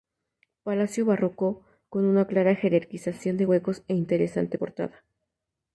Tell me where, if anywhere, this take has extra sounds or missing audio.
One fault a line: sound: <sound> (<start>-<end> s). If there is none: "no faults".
no faults